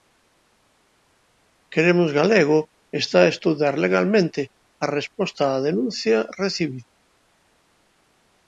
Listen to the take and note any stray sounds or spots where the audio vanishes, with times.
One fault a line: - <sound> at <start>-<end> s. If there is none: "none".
none